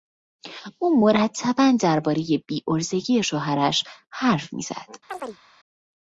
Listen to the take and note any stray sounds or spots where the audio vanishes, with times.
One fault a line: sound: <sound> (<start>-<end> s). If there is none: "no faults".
sound: chirp (5.1-5.4 s)